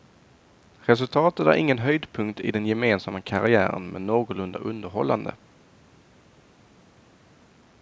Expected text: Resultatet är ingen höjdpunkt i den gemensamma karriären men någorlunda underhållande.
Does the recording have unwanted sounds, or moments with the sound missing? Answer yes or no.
no